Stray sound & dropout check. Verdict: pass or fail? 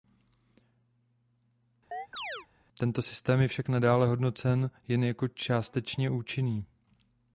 fail